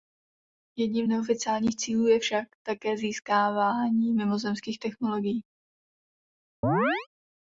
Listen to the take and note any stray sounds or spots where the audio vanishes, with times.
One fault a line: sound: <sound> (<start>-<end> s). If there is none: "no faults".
sound: chirp (6.6-7.1 s)